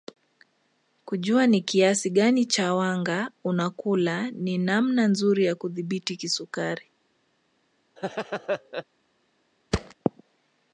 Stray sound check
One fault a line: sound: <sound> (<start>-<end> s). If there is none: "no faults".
sound: laugh (8.0-8.8 s)
sound: thud (9.7-9.9 s)